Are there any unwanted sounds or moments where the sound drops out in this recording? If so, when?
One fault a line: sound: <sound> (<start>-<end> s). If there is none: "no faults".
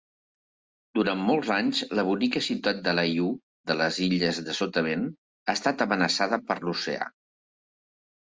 no faults